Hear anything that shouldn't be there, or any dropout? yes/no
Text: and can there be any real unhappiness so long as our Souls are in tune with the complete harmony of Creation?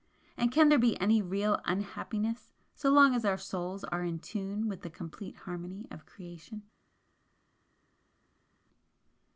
no